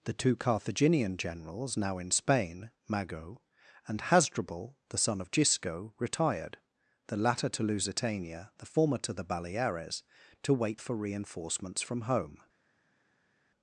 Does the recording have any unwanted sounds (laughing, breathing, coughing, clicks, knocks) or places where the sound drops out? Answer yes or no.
no